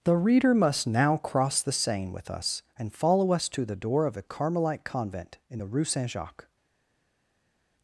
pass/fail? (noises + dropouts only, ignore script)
pass